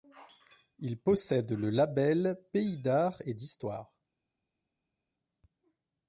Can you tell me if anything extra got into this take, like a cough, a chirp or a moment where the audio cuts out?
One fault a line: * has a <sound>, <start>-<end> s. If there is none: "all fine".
all fine